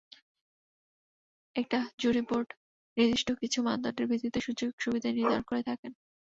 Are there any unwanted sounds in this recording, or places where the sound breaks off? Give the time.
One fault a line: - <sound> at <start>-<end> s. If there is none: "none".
none